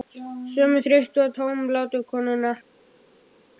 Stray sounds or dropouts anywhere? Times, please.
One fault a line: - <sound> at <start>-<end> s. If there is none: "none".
none